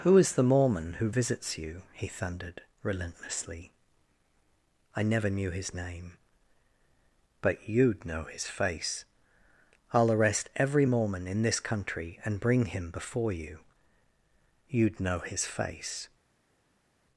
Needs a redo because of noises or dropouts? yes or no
no